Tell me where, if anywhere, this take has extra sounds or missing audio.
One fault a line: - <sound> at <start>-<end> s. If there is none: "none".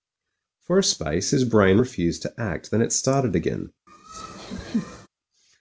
- laugh at 3.9-5.1 s